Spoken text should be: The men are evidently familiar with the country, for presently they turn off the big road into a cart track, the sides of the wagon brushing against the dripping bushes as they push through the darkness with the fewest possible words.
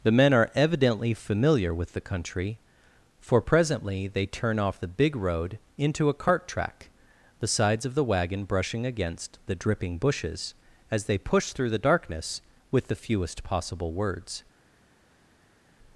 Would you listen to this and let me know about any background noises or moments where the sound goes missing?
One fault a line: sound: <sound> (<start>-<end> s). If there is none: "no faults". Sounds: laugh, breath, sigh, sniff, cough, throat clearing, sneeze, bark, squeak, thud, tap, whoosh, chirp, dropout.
no faults